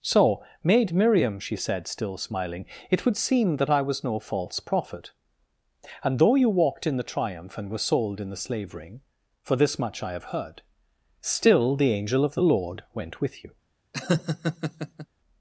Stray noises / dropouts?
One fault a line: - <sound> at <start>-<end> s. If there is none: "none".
- laugh at 13.9-15.1 s